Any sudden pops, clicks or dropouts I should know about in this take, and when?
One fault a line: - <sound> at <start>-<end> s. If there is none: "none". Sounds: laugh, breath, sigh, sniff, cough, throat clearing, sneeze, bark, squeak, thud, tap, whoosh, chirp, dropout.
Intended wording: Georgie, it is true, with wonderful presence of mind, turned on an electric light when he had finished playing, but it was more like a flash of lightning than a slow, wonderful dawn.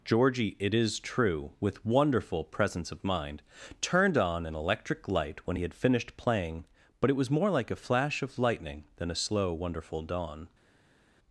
none